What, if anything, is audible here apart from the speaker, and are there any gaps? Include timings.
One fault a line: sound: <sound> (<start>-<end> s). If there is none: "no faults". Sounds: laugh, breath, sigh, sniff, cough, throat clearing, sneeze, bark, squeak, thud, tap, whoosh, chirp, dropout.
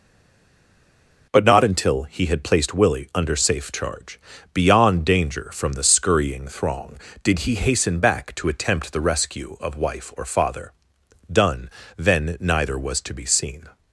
no faults